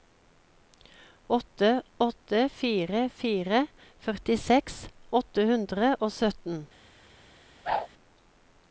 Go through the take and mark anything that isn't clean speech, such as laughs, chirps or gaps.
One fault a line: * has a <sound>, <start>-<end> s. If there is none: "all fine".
* has a whoosh, 7.6-7.9 s